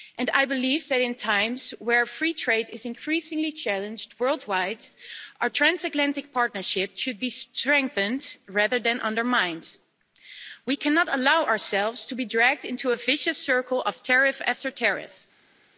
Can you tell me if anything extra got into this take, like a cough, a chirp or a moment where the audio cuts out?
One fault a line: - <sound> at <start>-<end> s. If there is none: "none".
none